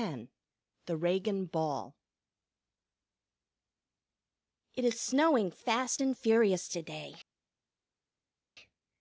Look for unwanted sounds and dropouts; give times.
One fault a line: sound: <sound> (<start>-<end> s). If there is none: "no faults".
no faults